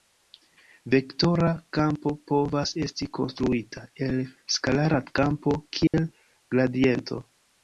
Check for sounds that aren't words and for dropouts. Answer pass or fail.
fail